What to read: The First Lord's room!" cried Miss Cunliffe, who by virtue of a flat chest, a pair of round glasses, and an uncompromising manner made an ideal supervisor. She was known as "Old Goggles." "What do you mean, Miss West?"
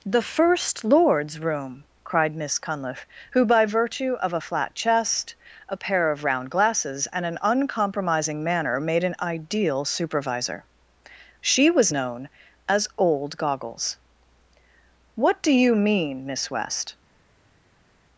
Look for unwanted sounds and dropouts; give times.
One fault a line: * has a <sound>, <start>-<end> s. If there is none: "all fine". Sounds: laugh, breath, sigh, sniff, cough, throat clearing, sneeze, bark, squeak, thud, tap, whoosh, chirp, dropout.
all fine